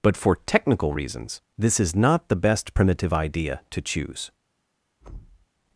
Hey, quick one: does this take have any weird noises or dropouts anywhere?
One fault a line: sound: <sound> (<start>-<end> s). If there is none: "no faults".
sound: thud (5.0-5.5 s)